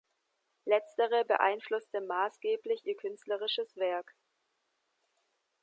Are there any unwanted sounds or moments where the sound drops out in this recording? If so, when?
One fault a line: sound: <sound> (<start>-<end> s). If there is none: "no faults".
no faults